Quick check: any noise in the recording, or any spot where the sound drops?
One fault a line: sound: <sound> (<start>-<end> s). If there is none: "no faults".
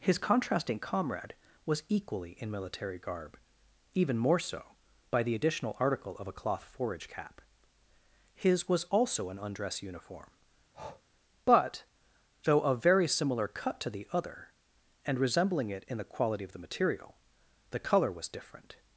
sound: breath (10.7-11.0 s)